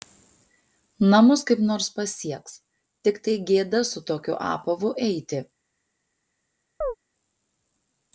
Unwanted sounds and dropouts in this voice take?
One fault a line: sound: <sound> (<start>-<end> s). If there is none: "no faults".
sound: chirp (6.8-7.0 s)